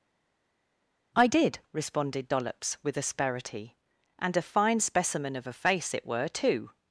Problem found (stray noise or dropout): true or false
false